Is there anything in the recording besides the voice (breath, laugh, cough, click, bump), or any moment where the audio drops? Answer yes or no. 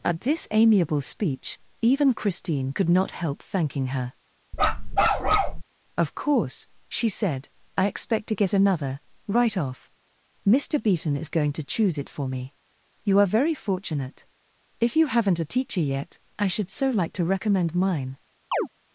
yes